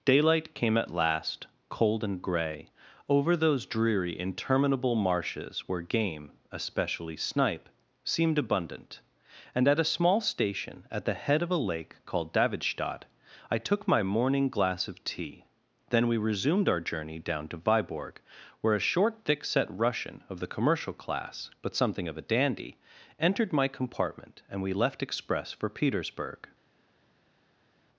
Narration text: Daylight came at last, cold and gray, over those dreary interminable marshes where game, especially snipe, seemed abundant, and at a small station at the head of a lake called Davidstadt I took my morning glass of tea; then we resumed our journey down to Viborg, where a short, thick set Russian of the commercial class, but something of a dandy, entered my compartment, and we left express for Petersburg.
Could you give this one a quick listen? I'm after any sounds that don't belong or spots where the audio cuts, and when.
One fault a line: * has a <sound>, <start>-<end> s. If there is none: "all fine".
all fine